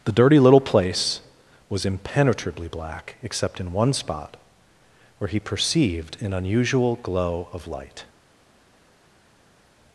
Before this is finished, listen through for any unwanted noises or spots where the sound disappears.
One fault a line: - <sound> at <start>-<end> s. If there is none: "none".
none